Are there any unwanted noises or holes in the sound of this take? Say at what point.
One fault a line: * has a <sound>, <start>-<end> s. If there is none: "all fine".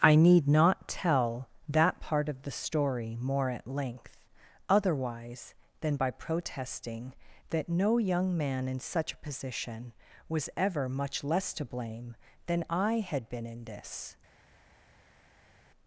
all fine